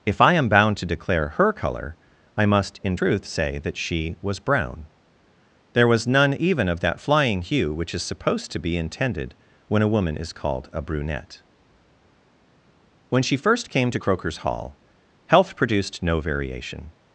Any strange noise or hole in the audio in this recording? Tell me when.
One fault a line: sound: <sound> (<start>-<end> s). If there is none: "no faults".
no faults